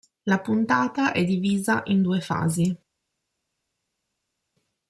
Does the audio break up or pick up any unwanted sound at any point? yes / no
no